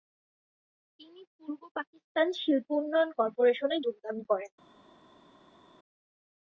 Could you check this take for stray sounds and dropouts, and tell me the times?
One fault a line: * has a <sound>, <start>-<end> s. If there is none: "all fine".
all fine